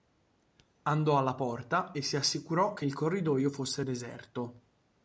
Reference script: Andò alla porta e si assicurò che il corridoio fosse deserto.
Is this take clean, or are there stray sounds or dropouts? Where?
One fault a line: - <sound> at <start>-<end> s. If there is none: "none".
none